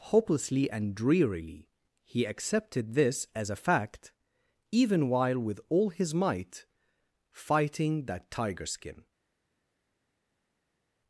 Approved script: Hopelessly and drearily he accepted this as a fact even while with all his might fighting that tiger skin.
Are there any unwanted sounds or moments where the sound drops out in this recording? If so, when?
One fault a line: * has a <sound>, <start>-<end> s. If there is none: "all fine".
all fine